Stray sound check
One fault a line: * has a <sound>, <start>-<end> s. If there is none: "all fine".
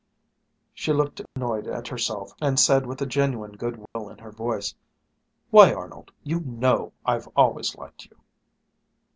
* has a dropout, 1.3-1.4 s
* has a dropout, 3.9-4.0 s